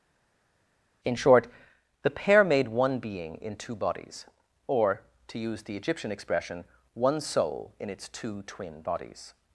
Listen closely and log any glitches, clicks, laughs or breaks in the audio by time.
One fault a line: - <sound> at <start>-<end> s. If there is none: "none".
none